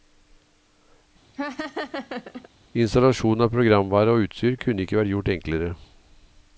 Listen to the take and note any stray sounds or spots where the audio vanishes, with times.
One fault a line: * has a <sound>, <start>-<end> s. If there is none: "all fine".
* has a laugh, 1.3-2.5 s